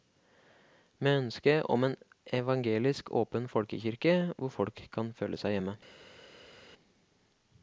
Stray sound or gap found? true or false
false